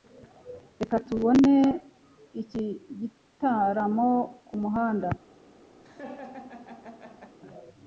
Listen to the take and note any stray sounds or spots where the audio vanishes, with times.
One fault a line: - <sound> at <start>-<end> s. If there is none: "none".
- laugh at 5.8-7.4 s